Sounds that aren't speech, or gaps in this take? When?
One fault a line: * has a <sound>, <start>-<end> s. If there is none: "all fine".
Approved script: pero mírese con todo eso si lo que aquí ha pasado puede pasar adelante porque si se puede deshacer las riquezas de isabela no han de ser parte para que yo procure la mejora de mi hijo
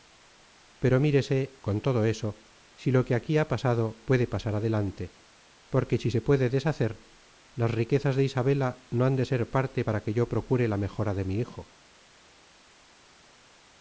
all fine